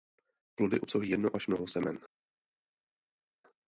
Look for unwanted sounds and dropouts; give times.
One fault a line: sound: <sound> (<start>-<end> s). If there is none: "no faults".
no faults